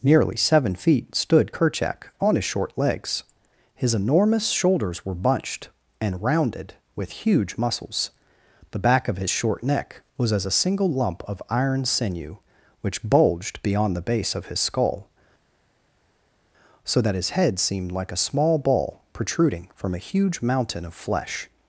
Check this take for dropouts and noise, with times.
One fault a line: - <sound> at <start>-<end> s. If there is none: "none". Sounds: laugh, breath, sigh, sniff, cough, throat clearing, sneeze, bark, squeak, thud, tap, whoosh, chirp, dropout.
none